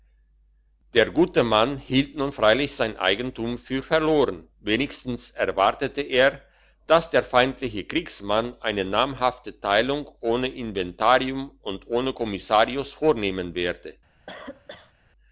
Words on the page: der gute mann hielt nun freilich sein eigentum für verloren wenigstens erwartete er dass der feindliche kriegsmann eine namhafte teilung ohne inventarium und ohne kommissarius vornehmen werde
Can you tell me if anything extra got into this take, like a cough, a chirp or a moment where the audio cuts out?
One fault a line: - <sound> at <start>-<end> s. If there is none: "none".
- cough at 14.3-14.9 s